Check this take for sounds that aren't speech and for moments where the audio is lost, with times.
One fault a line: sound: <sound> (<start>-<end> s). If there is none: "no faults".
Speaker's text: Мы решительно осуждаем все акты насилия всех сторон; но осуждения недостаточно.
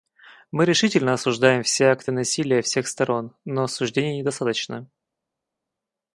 no faults